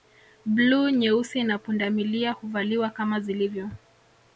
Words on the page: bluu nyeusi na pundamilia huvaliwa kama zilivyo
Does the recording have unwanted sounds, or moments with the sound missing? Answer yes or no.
no